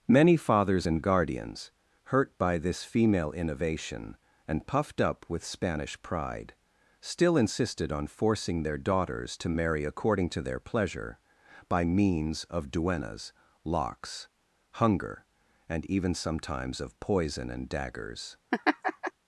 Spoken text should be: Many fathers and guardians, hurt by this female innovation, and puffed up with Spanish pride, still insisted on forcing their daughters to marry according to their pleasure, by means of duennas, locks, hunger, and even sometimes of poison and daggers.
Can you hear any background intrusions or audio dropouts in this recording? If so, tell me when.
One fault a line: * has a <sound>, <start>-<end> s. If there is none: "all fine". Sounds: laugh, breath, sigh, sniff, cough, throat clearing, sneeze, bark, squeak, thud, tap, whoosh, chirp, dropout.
* has a laugh, 18.5-19.1 s